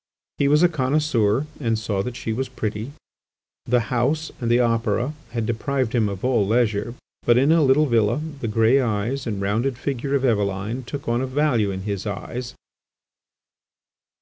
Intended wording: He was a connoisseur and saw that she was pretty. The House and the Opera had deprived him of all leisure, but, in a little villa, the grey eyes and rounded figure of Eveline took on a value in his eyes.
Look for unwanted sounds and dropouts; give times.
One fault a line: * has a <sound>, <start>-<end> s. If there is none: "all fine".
all fine